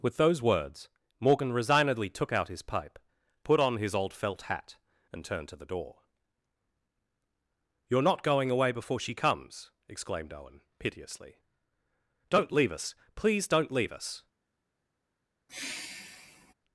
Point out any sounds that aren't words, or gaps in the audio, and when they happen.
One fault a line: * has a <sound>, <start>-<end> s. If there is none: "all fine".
* has a sigh, 15.5-16.5 s